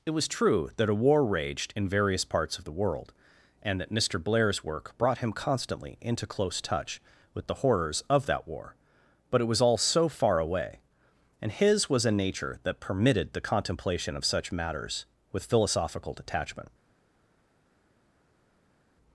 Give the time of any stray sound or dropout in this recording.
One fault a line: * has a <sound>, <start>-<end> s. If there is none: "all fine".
all fine